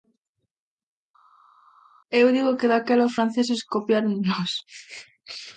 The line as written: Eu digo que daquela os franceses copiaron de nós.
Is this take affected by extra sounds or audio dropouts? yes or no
no